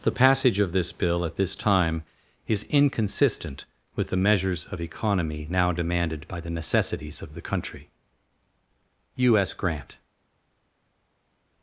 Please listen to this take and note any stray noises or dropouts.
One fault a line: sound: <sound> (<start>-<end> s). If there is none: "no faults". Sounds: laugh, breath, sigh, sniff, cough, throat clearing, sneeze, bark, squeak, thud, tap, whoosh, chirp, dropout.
no faults